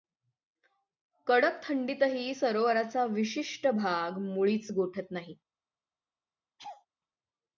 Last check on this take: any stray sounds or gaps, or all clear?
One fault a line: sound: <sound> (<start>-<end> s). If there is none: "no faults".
sound: laugh (6.6-6.9 s)